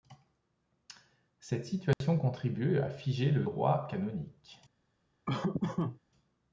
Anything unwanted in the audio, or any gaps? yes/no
yes